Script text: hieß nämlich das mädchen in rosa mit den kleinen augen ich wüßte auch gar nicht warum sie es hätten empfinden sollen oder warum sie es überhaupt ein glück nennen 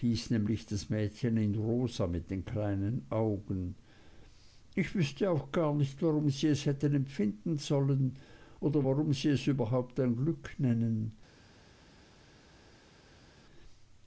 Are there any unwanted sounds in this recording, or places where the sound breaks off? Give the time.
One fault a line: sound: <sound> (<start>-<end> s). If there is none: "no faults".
no faults